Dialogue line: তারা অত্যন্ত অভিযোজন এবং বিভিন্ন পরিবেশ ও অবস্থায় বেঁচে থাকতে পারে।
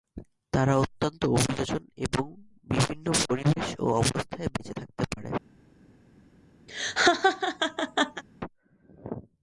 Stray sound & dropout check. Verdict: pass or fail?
fail